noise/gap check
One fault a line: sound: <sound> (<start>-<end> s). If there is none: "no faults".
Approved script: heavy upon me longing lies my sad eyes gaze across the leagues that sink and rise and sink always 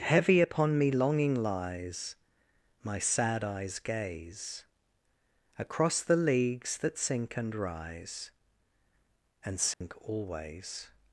sound: dropout (9.7-9.8 s)